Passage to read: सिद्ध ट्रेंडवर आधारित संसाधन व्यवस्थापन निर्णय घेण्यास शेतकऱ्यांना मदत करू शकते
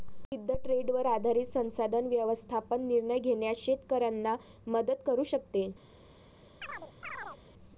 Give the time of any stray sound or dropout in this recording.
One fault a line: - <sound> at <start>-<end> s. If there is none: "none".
- chirp at 6.6-7.4 s